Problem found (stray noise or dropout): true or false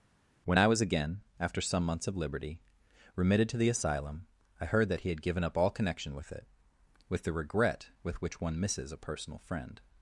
false